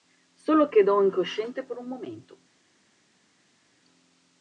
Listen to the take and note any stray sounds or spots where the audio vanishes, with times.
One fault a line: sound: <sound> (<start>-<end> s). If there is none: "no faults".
no faults